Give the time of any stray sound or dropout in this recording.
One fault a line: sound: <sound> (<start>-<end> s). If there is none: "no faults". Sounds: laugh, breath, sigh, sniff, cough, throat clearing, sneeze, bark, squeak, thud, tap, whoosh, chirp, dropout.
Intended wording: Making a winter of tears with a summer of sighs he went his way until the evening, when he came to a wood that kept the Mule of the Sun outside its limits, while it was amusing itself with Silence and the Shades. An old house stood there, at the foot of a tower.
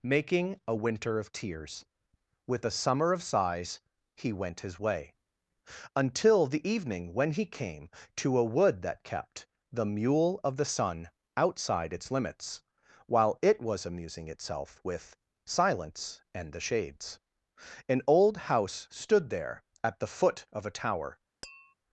sound: tap (21.4-21.7 s)